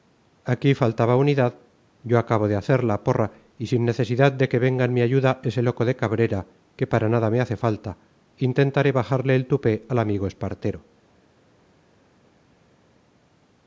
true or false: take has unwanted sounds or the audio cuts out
false